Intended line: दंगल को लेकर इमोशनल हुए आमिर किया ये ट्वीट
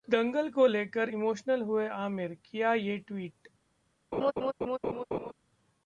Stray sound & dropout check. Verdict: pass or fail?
fail